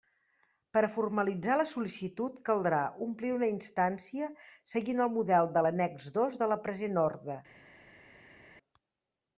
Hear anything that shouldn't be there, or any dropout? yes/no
no